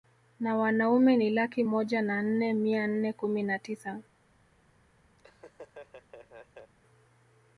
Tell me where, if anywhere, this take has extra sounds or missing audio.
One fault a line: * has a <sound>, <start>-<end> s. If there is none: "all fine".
* has a laugh, 5.2-6.7 s